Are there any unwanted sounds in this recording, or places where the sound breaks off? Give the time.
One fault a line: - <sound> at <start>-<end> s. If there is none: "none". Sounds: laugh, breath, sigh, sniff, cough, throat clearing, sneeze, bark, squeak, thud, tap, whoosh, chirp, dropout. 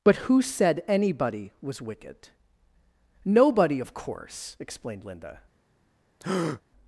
- breath at 6.2-6.6 s